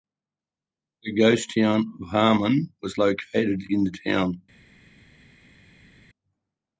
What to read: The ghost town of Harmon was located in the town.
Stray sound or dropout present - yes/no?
no